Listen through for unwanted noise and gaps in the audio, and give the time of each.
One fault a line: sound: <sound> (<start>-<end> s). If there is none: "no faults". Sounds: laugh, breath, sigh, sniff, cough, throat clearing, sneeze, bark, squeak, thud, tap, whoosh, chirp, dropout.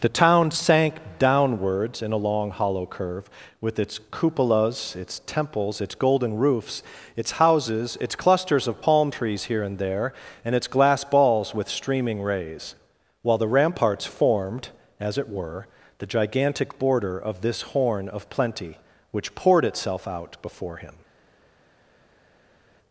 no faults